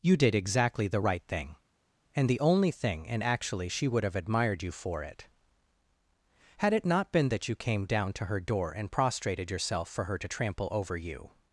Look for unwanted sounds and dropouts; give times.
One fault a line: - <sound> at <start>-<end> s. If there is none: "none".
none